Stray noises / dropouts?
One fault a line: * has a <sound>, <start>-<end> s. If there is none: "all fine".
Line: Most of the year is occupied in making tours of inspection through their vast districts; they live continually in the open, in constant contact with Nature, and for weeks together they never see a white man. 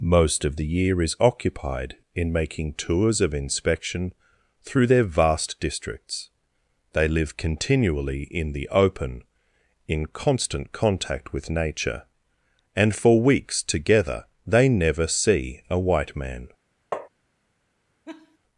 * has a tap, 16.9-17.1 s
* has a laugh, 18.1-18.4 s